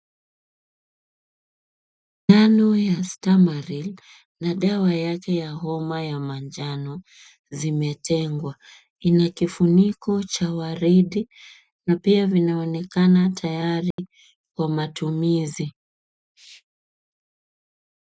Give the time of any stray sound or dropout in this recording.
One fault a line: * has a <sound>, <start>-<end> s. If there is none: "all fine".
* has a dropout, 13.9-14.0 s